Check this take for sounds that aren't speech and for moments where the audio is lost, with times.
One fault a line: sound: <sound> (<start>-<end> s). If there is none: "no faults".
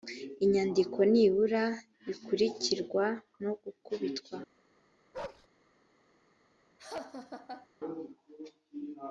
sound: bark (5.1-5.5 s)
sound: laugh (6.8-7.7 s)